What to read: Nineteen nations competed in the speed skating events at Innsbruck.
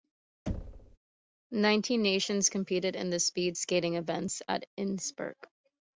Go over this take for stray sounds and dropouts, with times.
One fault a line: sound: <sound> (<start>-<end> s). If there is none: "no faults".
sound: thud (0.5-1.0 s)